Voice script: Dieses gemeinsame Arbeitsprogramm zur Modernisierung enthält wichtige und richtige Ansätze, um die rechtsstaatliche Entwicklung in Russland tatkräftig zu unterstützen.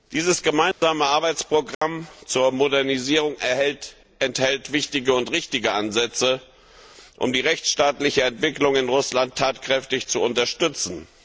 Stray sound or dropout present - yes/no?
yes